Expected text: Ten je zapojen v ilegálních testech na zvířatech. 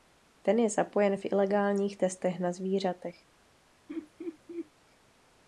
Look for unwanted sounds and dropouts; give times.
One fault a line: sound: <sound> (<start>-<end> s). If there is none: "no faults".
sound: laugh (3.9-4.7 s)